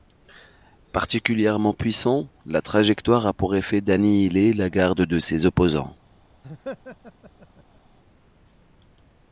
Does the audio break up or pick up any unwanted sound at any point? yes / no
yes